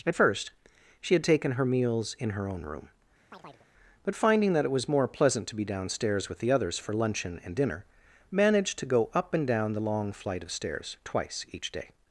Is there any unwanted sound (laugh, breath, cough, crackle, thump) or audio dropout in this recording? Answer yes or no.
yes